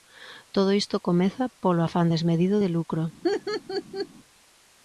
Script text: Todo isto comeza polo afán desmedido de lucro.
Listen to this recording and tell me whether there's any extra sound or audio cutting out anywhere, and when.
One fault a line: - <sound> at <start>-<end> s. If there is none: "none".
- laugh at 3.2-4.1 s